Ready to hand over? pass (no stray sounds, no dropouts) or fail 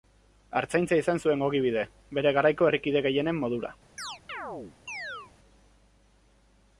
fail